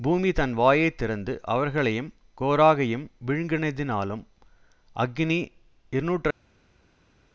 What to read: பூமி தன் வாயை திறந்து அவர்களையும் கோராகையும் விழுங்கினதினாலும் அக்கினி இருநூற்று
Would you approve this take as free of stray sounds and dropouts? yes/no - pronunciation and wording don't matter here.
yes